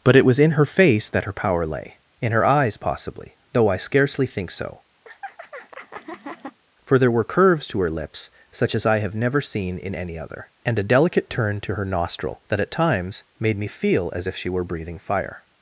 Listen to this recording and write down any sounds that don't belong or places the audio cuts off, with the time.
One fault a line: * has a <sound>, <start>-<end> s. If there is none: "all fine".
* has a laugh, 5.0-6.6 s